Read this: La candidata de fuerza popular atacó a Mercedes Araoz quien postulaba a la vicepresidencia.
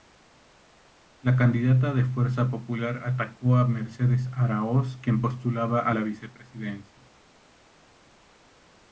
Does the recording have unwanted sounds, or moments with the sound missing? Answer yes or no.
no